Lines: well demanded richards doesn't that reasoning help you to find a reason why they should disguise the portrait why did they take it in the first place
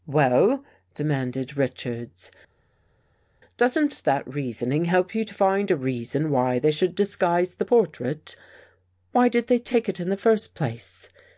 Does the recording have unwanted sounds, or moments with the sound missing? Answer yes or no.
no